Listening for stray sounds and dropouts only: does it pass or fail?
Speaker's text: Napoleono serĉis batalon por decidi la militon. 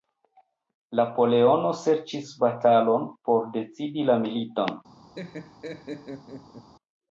fail